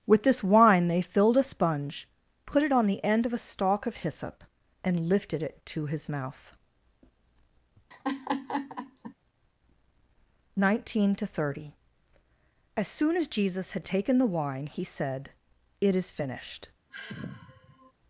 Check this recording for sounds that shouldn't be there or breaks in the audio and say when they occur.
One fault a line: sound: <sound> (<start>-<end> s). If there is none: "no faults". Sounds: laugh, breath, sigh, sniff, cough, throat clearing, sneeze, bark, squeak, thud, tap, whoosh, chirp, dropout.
sound: laugh (7.9-9.1 s)
sound: sigh (16.9-17.9 s)